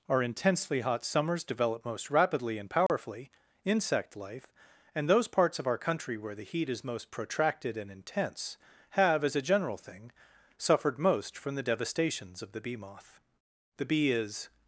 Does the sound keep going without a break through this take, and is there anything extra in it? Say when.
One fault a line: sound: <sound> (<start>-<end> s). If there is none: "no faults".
sound: dropout (2.9-2.9 s)